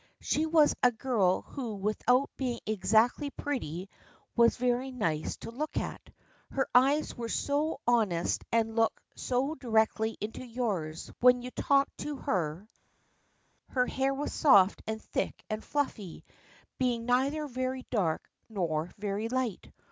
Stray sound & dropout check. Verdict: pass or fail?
pass